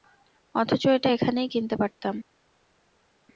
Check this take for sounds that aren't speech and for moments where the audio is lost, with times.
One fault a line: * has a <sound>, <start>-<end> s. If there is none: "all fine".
all fine